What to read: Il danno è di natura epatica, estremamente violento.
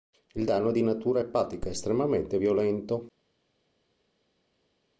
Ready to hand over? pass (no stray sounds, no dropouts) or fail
pass